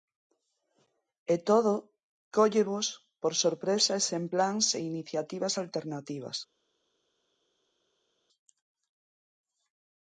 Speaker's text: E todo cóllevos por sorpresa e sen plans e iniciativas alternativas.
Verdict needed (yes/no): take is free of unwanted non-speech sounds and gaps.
yes